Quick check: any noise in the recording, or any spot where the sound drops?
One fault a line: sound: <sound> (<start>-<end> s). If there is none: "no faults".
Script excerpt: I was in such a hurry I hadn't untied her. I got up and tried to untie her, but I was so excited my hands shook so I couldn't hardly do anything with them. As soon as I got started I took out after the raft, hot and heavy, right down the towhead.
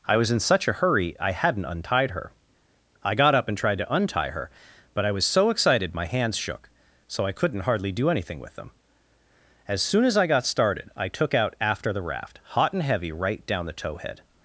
no faults